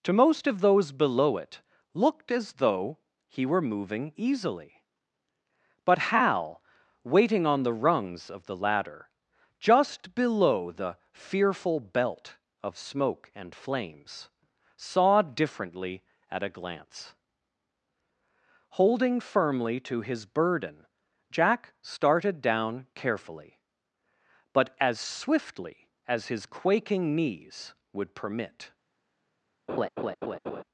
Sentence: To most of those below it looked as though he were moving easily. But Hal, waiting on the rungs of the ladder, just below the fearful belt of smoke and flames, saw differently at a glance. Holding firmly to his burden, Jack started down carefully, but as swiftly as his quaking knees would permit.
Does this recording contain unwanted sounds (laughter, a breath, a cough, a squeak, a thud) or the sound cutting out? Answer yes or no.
yes